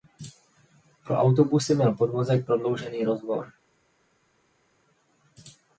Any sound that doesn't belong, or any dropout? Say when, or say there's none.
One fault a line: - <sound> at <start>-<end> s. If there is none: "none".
none